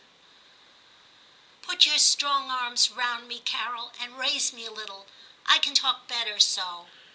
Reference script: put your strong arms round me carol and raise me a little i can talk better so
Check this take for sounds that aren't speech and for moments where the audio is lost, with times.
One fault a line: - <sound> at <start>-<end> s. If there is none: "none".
none